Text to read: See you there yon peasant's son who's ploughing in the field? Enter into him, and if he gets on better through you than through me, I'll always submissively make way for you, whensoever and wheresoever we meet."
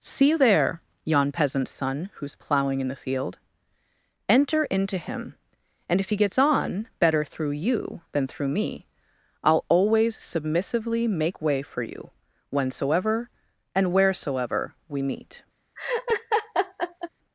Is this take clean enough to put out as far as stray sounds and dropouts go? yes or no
no